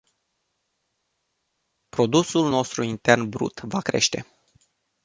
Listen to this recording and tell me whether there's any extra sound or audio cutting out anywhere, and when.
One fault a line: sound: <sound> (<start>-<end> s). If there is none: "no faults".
no faults